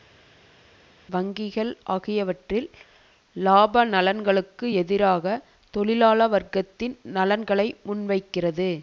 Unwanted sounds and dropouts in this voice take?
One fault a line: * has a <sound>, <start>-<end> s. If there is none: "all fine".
all fine